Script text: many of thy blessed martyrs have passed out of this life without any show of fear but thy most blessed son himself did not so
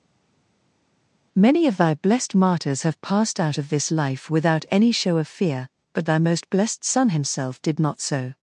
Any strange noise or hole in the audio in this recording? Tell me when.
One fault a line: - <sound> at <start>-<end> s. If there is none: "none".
none